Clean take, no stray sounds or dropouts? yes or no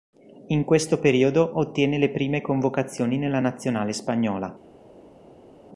yes